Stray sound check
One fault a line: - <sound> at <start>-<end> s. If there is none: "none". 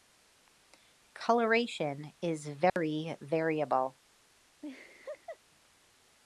- dropout at 2.7-2.8 s
- laugh at 4.6-5.4 s